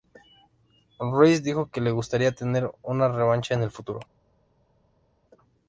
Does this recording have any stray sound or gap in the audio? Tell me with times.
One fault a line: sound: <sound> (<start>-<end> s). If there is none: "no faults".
no faults